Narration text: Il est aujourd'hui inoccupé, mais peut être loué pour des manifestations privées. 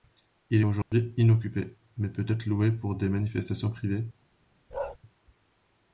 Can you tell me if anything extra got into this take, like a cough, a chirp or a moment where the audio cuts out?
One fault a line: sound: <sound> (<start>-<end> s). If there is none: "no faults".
sound: dropout (0.8-0.9 s)
sound: bark (4.7-5.0 s)